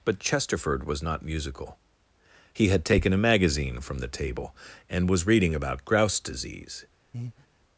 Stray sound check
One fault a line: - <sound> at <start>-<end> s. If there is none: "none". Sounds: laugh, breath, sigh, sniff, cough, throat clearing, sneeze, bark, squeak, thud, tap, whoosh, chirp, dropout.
- breath at 7.1-7.5 s